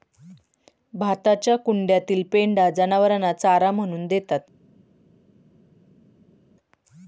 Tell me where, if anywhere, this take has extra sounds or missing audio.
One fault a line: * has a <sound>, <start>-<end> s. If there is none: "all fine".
all fine